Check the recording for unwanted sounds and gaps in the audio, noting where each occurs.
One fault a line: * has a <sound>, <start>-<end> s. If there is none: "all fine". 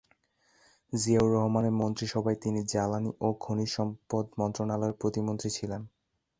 all fine